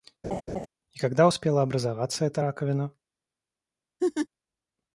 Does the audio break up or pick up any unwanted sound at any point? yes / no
yes